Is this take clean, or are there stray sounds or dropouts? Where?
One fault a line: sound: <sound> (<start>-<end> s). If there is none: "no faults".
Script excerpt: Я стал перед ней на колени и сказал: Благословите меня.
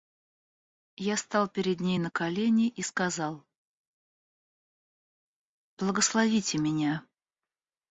no faults